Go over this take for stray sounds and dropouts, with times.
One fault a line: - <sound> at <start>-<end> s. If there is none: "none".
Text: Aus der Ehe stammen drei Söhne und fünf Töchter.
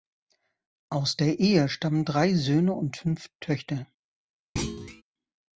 - thud at 4.6-5.0 s